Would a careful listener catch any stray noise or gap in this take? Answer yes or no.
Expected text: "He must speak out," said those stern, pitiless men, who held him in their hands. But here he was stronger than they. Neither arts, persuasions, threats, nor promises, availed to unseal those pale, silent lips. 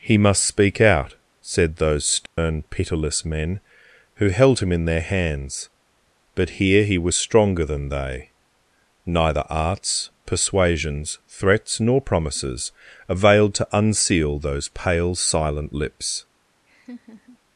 yes